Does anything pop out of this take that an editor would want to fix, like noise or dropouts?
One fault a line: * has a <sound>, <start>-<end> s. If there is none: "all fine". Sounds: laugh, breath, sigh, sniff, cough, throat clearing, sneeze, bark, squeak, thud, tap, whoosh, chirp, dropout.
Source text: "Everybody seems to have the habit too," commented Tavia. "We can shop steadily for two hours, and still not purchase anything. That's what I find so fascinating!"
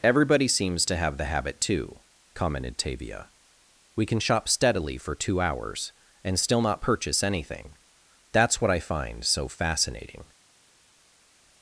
all fine